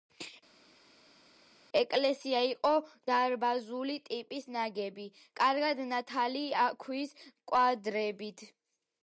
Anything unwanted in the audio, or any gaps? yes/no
no